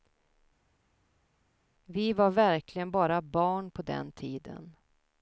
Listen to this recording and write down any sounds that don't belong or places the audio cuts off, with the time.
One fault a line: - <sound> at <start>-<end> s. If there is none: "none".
none